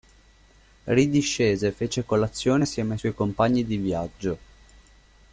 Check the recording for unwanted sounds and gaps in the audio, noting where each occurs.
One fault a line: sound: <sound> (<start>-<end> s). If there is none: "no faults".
no faults